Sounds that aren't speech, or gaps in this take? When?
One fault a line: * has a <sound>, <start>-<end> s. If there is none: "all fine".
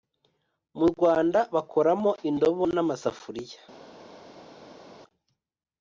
all fine